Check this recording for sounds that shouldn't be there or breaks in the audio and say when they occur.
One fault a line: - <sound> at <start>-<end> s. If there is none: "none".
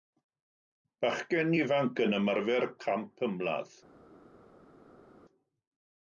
none